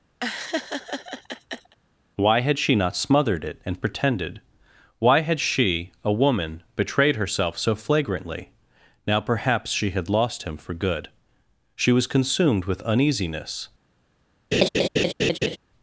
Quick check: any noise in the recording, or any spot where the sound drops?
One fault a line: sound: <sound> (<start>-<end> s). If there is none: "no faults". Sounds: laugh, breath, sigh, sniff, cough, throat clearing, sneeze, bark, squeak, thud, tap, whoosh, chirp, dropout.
sound: laugh (0.2-1.8 s)
sound: laugh (14.5-15.6 s)